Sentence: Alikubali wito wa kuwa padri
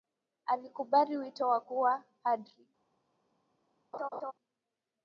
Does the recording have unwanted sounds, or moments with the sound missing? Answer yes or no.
yes